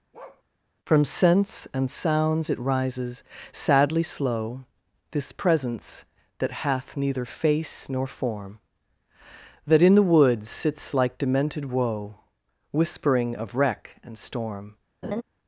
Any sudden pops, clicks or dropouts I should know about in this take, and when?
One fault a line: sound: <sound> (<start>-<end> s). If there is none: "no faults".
sound: bark (0.1-0.4 s)
sound: laugh (15.0-15.2 s)